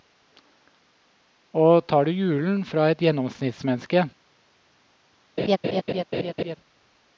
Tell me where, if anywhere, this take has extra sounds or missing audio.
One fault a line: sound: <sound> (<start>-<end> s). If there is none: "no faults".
sound: laugh (5.4-6.6 s)